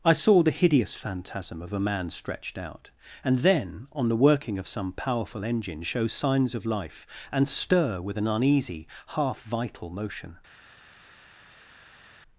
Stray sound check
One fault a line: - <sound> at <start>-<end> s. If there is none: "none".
none